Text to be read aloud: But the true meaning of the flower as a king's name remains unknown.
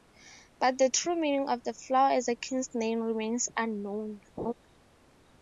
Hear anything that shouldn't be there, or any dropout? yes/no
yes